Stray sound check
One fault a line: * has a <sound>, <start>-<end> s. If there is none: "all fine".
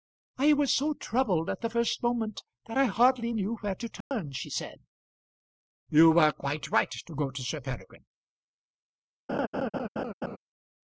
* has a dropout, 4.0-4.1 s
* has a laugh, 9.3-10.4 s